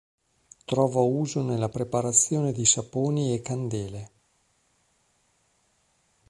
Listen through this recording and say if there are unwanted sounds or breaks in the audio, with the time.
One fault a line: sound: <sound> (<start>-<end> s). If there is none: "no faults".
no faults